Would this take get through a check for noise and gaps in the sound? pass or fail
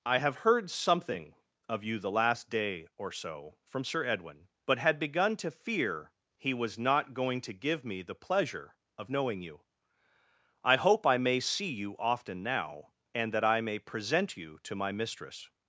pass